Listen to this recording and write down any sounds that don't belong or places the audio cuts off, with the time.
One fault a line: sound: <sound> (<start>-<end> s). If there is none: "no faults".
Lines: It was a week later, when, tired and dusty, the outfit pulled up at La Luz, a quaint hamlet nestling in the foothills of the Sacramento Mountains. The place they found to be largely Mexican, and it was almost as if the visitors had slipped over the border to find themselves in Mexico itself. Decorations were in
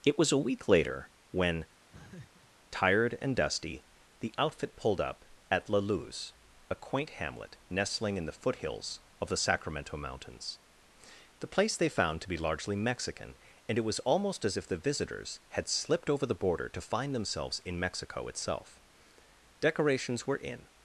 sound: laugh (1.9-2.5 s)